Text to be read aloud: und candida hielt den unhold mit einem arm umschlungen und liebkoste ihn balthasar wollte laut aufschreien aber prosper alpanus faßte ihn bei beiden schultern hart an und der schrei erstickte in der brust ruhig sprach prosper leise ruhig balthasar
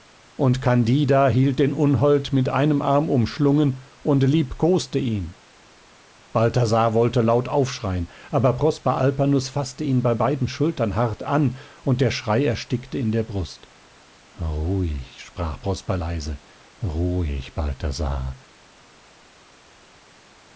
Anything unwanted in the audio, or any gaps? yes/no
no